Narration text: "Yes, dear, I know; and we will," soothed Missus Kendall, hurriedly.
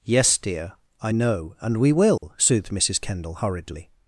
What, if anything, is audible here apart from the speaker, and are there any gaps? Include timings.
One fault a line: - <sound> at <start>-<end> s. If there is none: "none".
- dropout at 2.2-2.2 s